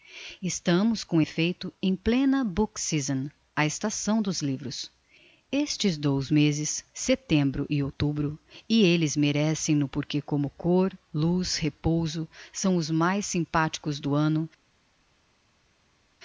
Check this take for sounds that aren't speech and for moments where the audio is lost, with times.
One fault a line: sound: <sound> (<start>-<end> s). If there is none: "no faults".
no faults